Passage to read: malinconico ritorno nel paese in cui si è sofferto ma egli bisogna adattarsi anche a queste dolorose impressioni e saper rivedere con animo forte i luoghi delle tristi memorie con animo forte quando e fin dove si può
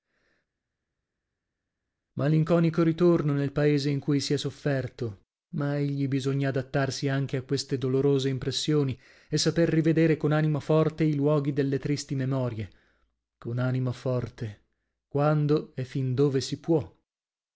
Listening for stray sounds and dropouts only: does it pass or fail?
pass